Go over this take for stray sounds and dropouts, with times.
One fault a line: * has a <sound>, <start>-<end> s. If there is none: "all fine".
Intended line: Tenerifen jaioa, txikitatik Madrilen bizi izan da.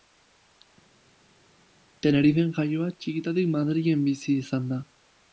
all fine